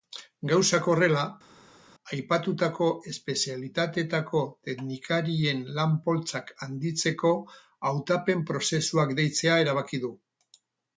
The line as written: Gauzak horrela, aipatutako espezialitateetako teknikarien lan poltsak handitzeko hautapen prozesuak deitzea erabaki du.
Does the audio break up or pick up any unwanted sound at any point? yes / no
no